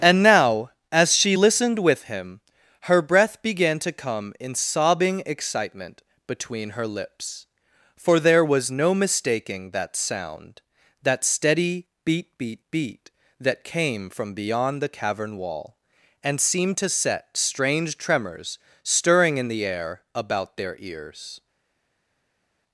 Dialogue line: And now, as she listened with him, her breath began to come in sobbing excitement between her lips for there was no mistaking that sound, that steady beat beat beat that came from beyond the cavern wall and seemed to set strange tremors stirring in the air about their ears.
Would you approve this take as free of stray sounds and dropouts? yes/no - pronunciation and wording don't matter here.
yes